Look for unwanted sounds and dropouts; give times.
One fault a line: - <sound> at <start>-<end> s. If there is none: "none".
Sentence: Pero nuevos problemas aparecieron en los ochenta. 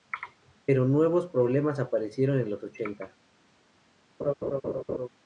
- laugh at 4.2-5.1 s